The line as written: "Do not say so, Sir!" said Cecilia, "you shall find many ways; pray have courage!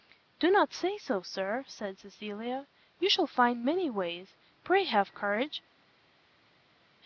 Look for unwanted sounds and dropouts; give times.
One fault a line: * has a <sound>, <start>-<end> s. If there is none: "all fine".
all fine